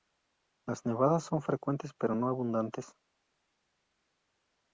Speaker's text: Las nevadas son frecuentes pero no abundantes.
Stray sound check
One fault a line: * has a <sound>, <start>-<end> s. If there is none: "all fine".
all fine